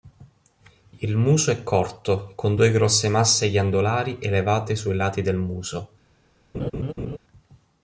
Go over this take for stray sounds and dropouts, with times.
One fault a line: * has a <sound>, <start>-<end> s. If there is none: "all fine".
* has a laugh, 6.5-7.2 s